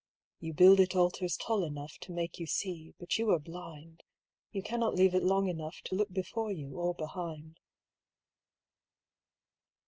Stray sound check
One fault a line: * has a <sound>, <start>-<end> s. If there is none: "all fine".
all fine